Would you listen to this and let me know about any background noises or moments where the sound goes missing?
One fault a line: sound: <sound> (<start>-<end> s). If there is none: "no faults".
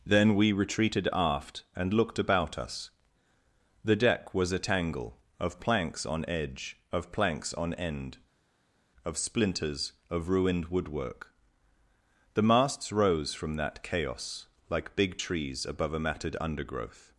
no faults